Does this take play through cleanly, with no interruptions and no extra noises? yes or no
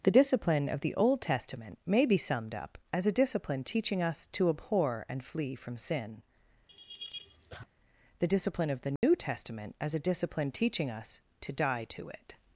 no